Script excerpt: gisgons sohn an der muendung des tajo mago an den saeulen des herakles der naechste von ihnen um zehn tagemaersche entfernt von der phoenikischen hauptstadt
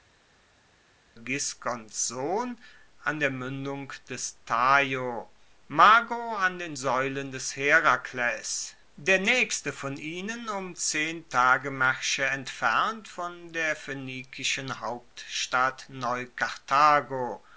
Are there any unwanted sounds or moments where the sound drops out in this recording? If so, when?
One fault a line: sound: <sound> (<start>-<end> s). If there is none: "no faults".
no faults